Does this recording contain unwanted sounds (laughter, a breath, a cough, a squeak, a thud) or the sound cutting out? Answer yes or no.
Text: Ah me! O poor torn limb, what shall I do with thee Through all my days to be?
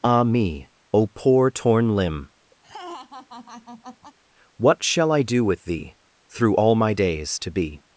yes